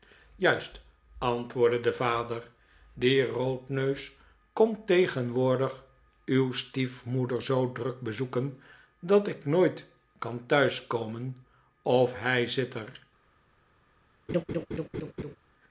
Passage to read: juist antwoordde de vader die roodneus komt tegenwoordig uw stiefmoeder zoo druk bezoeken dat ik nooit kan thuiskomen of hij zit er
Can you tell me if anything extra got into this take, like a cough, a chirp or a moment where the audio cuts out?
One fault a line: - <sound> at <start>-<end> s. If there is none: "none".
- laugh at 14.3-15.4 s